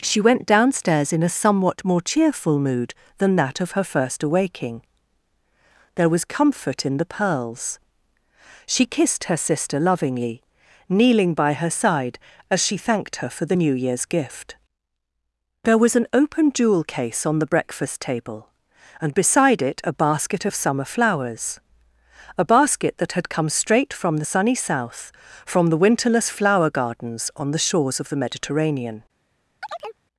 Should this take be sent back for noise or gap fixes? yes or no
yes